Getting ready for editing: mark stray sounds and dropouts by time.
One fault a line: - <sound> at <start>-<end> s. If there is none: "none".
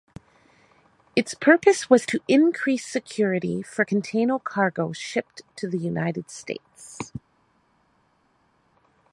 none